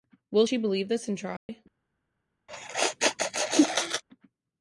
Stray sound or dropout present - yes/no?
yes